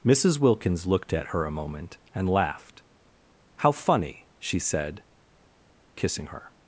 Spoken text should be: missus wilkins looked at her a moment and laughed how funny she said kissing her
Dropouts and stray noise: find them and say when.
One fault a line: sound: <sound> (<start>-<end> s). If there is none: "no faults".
no faults